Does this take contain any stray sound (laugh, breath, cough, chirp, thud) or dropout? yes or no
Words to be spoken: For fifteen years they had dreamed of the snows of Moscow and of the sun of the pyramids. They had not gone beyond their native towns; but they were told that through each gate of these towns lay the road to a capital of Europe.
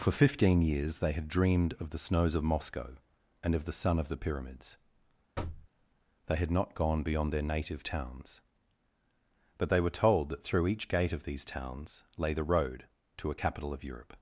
yes